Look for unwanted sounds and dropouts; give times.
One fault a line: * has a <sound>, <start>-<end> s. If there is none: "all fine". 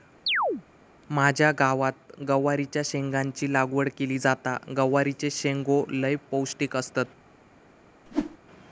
* has a chirp, 0.3-0.6 s
* has a whoosh, 8.1-8.4 s